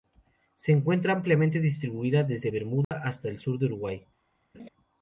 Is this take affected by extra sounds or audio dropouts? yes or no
yes